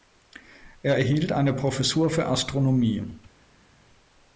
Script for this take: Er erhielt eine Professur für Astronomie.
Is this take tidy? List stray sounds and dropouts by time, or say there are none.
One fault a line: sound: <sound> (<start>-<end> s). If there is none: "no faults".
no faults